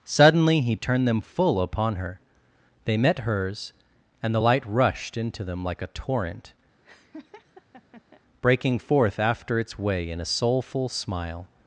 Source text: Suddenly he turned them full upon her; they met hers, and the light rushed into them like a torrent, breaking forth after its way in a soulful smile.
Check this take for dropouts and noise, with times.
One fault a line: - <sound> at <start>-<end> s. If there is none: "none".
- laugh at 6.8-8.2 s